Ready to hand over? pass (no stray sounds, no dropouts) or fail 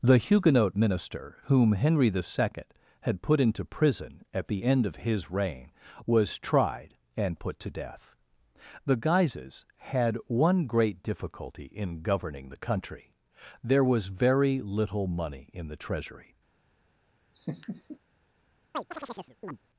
fail